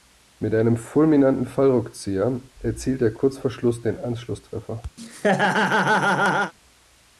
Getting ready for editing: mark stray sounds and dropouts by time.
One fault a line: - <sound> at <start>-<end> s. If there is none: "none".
- laugh at 5.0-6.5 s